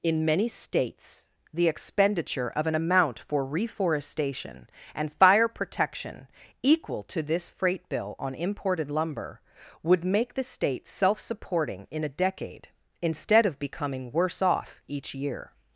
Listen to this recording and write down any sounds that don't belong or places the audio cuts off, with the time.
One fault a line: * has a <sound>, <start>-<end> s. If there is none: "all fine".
all fine